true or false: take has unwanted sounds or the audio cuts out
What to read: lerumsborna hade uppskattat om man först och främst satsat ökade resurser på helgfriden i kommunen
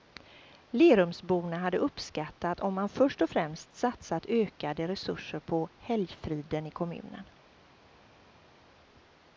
false